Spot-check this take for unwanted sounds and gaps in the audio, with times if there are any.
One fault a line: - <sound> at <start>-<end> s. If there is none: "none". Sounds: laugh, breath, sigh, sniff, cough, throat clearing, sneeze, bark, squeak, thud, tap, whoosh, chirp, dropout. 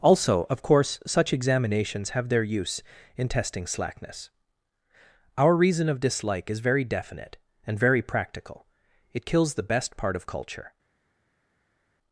none